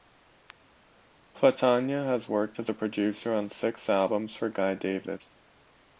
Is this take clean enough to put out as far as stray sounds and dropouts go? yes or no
yes